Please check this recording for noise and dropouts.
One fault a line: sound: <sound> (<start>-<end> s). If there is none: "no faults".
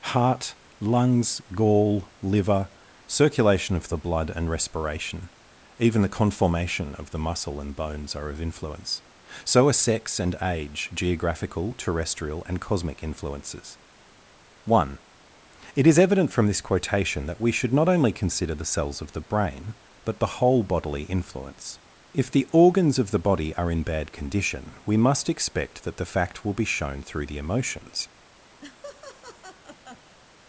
sound: laugh (28.6-30.2 s)